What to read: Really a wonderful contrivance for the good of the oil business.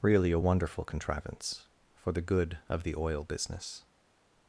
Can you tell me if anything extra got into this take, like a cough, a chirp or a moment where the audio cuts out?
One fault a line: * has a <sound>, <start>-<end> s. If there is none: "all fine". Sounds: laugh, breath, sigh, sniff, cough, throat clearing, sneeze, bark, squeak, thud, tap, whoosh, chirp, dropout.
all fine